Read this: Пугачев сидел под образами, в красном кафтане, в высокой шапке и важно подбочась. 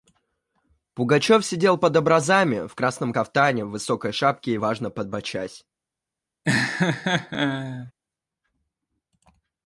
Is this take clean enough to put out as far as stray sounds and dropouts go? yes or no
no